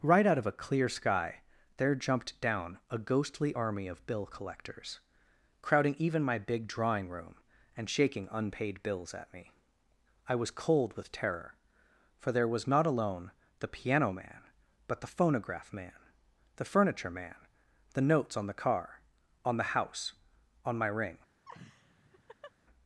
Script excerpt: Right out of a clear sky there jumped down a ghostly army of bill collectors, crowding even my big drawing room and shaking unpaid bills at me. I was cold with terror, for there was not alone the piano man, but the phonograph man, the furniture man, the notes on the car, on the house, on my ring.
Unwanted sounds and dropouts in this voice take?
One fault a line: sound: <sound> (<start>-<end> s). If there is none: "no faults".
sound: laugh (21.4-22.5 s)